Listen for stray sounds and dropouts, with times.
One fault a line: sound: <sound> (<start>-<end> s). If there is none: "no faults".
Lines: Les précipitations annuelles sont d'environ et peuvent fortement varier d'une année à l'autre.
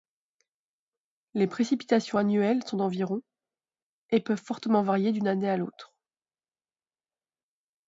no faults